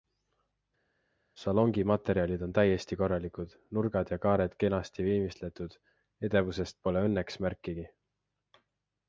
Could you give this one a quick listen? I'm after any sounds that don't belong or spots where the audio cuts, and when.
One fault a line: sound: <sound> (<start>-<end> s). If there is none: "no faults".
no faults